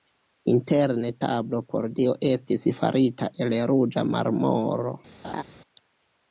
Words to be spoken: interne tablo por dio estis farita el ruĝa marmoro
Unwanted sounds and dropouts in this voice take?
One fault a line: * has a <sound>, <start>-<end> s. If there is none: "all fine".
* has a laugh, 5.2-5.4 s